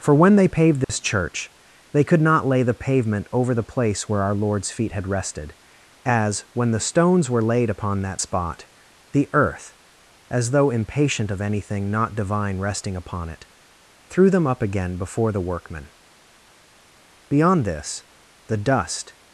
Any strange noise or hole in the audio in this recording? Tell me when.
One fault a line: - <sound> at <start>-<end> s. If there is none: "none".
- dropout at 0.8-0.9 s